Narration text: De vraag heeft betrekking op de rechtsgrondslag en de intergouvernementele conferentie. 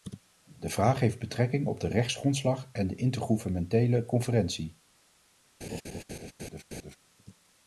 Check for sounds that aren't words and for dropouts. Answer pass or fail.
fail